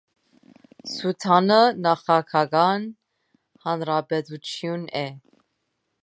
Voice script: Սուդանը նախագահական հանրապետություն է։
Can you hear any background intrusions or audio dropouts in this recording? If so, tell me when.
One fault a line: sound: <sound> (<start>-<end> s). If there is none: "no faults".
no faults